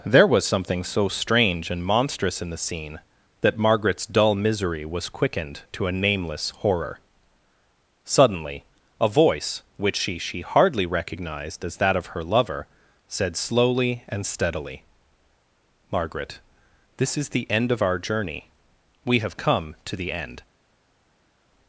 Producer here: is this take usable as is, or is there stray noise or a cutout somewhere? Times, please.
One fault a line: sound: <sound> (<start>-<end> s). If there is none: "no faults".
no faults